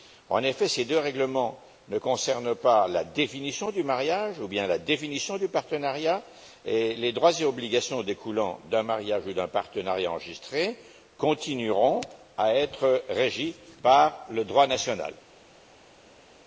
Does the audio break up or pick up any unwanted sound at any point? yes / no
no